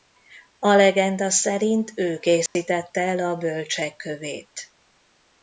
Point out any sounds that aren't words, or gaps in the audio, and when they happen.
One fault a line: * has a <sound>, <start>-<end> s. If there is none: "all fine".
* has a dropout, 2.5-2.6 s